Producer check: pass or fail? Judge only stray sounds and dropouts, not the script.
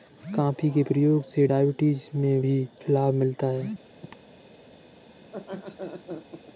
fail